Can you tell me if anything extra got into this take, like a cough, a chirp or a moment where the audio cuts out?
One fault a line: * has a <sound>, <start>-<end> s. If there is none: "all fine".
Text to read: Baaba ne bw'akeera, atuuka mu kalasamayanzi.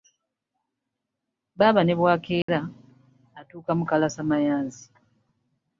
* has a dropout, 2.4-2.5 s